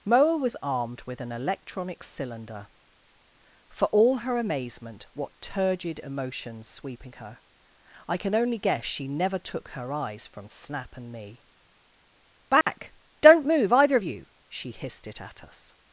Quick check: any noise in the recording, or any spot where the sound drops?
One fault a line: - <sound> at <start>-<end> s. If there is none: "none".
- dropout at 12.6-12.7 s